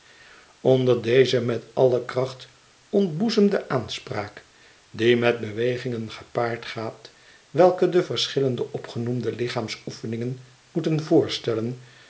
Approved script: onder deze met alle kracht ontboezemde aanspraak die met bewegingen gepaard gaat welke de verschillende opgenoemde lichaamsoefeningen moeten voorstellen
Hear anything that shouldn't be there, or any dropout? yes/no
no